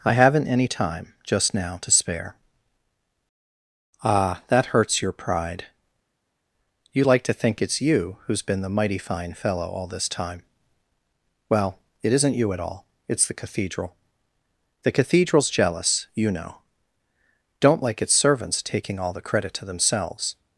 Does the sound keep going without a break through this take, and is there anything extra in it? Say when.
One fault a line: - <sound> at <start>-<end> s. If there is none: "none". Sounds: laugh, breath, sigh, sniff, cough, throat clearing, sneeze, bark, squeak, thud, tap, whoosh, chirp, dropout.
none